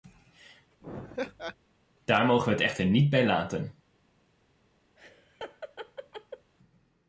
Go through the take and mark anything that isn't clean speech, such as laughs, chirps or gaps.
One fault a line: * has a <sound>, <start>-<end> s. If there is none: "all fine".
* has a laugh, 0.8-1.6 s
* has a laugh, 5.0-6.5 s